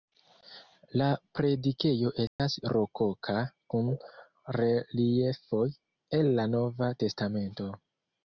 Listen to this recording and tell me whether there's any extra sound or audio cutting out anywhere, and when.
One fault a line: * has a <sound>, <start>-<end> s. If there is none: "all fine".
* has a dropout, 2.3-2.4 s